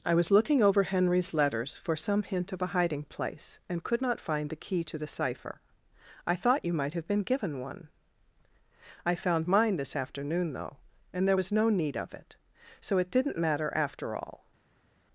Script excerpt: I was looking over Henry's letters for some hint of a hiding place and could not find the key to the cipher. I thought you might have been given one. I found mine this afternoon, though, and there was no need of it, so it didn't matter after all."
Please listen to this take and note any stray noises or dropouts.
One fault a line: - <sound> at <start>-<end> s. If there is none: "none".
none